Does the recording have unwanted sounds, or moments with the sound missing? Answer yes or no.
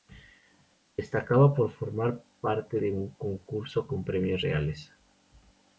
no